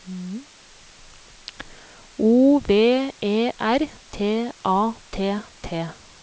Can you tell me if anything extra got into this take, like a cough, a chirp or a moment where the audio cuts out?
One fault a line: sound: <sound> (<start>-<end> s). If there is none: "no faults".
no faults